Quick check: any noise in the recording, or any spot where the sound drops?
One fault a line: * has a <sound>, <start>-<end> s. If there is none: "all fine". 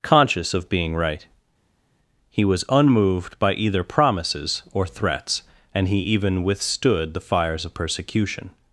all fine